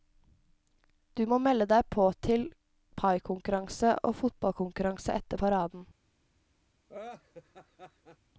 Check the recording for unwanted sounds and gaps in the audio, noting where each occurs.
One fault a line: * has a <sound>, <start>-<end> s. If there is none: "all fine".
* has a laugh, 6.9-8.2 s